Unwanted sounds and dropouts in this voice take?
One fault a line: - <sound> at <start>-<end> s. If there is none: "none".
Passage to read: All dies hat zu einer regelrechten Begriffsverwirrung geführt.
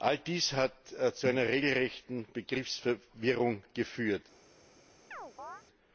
- chirp at 5.1-5.6 s